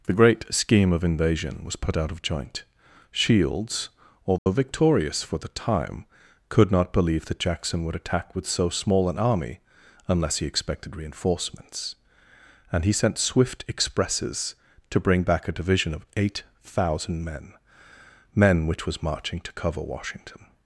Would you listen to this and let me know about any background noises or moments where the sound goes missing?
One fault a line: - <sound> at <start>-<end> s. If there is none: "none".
- dropout at 4.4-4.5 s